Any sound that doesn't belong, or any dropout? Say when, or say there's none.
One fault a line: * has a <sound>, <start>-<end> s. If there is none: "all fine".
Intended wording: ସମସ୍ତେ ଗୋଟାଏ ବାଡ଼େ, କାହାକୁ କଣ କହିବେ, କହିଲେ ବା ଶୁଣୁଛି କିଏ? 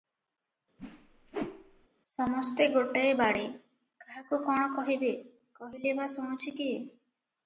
* has a whoosh, 0.8-1.9 s